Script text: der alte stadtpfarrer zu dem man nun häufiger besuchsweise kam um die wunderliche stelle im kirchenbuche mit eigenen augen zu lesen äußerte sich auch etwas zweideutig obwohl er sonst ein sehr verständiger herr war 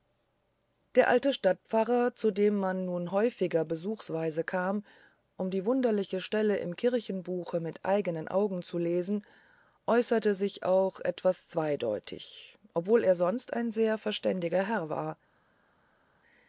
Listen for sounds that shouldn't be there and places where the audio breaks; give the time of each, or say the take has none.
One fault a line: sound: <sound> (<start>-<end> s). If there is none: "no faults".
no faults